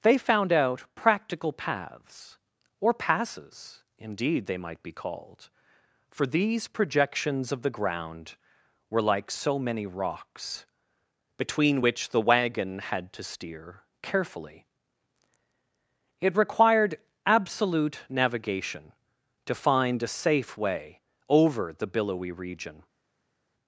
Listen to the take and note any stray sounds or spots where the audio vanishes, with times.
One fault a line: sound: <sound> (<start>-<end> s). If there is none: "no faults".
no faults